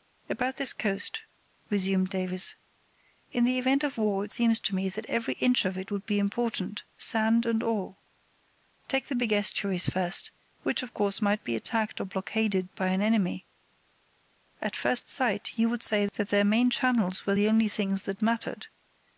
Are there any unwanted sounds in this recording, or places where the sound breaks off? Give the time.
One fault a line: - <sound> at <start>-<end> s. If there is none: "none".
none